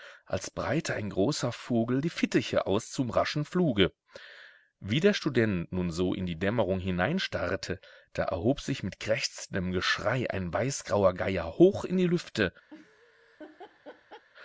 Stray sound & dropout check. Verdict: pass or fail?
fail